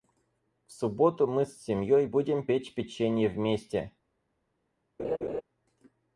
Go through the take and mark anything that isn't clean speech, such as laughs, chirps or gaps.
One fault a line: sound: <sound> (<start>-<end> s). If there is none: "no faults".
sound: laugh (5.0-5.4 s)